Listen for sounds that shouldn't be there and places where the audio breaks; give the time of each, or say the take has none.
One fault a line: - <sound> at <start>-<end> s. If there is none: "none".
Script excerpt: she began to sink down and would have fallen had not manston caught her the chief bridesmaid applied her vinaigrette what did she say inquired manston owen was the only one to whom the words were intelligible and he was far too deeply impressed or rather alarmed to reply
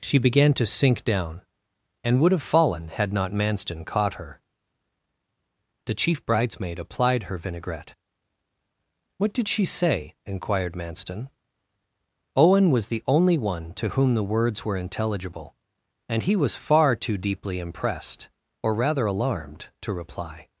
none